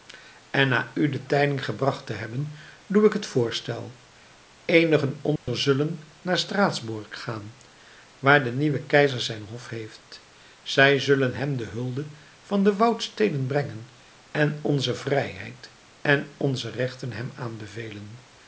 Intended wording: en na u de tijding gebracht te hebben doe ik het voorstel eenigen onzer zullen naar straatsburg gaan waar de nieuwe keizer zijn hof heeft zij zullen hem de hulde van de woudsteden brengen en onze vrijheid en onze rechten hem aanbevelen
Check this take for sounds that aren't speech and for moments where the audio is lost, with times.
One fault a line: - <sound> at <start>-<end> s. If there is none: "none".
- dropout at 5.4-5.5 s